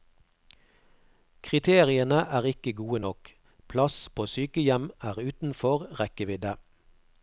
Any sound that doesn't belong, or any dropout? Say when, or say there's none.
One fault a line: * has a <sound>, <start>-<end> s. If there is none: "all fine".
all fine